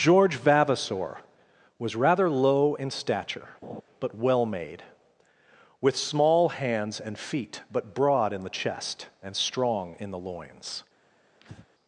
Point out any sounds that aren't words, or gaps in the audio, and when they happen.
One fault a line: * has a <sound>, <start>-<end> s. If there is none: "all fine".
* has a laugh, 3.6-3.8 s
* has a breath, 11.4-11.7 s